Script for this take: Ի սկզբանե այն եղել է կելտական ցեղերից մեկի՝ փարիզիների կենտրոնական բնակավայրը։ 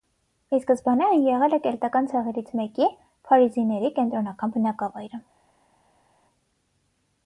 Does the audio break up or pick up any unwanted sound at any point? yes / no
no